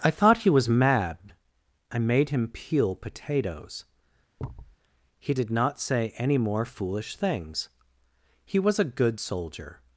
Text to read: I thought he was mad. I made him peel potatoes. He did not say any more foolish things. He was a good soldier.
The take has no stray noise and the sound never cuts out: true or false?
false